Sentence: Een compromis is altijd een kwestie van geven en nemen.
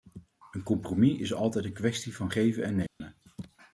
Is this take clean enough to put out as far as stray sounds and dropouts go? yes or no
no